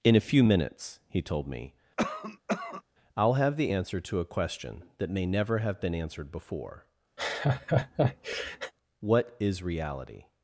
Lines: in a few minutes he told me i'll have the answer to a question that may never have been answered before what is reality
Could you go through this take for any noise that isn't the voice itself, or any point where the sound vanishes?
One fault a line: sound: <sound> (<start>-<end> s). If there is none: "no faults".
sound: cough (2.0-2.8 s)
sound: laugh (7.2-8.7 s)